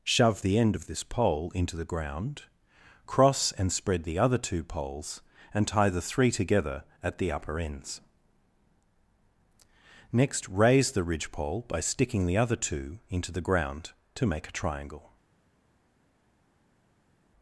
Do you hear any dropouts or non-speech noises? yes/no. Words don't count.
no